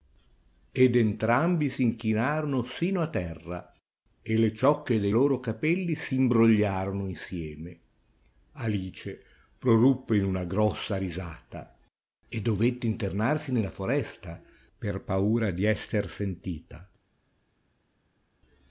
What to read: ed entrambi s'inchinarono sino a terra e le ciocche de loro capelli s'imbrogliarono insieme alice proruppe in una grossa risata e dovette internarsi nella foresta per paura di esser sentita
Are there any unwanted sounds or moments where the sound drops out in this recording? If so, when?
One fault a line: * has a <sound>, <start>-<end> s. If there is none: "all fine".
all fine